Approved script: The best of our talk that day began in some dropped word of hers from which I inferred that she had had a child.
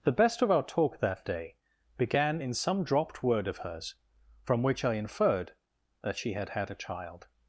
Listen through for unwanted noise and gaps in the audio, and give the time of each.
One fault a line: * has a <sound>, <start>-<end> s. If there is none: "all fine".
all fine